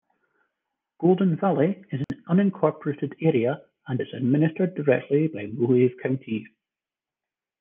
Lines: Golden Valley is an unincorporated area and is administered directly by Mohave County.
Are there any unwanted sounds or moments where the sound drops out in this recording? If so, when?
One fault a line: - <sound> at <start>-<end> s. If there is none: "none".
- dropout at 2.0-2.1 s